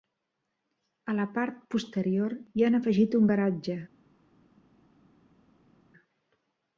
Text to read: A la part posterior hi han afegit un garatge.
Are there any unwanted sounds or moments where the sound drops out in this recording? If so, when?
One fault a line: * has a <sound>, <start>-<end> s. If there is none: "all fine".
all fine